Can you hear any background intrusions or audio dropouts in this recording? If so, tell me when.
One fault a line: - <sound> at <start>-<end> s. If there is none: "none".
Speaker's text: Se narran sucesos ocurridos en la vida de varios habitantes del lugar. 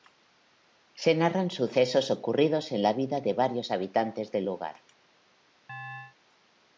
- chirp at 5.7-6.2 s